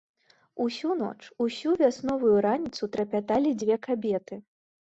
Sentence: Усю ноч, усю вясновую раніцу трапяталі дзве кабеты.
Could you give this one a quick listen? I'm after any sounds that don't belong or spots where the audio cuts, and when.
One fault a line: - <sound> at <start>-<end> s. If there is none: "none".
none